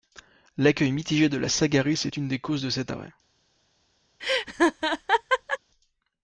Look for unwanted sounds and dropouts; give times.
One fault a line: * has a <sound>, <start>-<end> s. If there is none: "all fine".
* has a laugh, 4.2-5.6 s